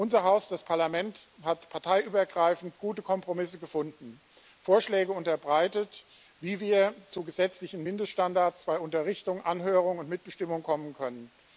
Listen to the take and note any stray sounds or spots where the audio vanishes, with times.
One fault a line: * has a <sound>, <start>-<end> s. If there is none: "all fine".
all fine